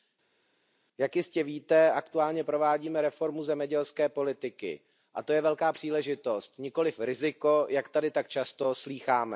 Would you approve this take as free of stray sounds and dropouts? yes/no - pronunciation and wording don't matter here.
yes